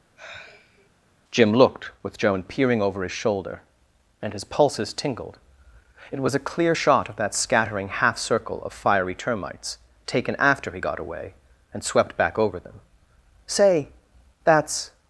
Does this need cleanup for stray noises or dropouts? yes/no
yes